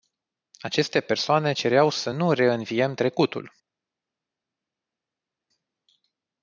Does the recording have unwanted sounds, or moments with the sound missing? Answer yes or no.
no